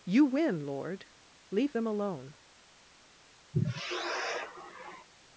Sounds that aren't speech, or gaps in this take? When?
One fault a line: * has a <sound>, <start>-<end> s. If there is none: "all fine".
* has a sigh, 3.5-5.1 s